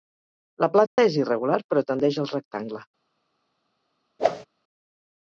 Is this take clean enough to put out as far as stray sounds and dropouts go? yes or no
no